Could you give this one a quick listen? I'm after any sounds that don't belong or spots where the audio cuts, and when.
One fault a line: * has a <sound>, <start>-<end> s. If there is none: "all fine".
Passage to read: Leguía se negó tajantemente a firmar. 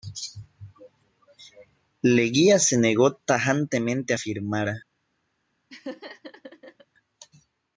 * has a laugh, 5.7-6.9 s